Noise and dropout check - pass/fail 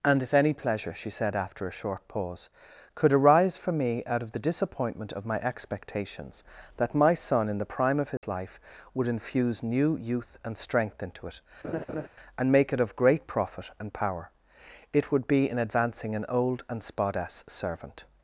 fail